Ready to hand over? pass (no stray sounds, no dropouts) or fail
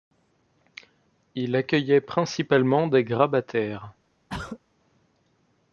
fail